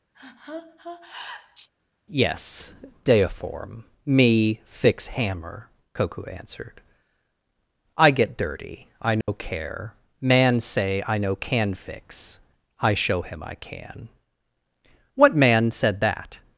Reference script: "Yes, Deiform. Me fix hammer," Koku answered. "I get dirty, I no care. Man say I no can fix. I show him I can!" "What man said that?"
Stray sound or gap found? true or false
true